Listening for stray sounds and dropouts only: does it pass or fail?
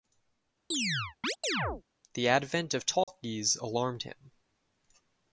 fail